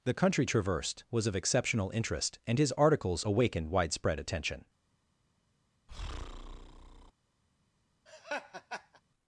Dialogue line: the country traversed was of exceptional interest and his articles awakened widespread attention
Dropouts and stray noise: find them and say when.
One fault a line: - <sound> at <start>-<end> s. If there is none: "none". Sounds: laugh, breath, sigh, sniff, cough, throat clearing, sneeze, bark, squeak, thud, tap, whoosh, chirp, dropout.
- breath at 5.9-7.1 s
- laugh at 8.1-9.0 s